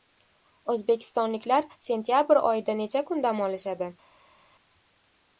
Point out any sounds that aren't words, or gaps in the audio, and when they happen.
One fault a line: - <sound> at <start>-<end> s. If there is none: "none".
none